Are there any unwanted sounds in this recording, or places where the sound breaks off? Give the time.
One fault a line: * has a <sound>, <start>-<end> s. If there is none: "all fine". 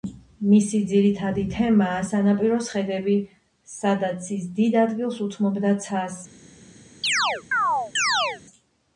* has a chirp, 7.0-8.4 s